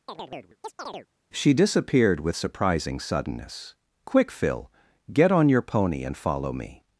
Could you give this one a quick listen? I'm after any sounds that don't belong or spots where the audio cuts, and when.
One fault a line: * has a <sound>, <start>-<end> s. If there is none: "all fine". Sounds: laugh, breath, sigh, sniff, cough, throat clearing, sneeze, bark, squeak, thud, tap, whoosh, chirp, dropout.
* has a chirp, 0.1-1.1 s